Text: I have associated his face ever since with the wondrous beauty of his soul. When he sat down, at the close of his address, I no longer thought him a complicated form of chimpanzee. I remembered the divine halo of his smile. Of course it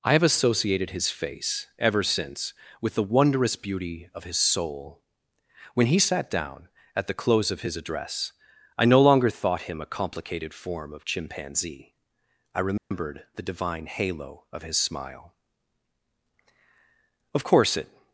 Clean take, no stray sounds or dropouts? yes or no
no